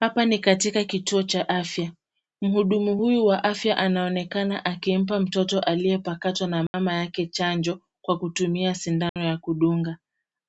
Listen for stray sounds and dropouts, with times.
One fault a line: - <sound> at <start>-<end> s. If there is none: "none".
- dropout at 6.7-6.7 s
- dropout at 9.1-9.2 s